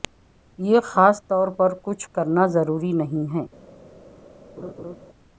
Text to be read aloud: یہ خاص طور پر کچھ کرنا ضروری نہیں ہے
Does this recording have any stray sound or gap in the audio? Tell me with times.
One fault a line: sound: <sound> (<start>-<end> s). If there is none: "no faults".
sound: laugh (4.6-5.0 s)